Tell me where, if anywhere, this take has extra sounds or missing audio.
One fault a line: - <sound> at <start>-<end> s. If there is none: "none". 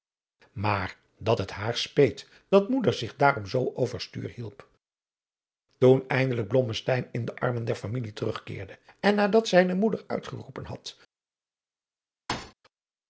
- thud at 12.3-12.5 s